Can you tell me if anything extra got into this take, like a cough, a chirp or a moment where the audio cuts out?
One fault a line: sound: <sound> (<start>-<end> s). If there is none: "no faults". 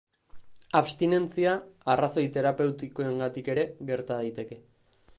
no faults